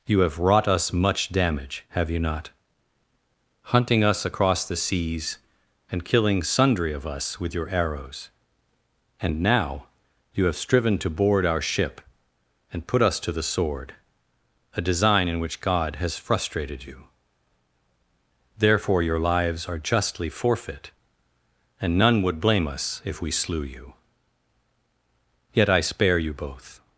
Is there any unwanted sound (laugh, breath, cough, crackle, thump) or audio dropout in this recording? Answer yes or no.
no